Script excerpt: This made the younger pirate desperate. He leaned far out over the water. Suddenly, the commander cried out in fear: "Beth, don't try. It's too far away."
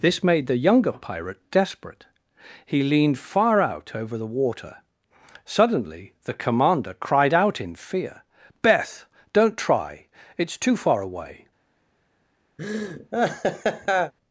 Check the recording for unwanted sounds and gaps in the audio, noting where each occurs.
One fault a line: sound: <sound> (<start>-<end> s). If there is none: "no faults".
sound: laugh (12.6-14.1 s)